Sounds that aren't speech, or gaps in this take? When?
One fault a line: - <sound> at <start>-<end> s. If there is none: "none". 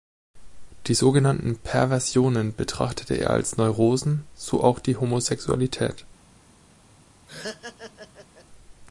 - laugh at 7.3-8.5 s